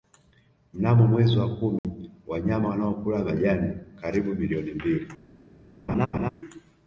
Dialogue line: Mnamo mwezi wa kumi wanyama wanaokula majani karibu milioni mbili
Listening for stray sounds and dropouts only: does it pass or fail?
fail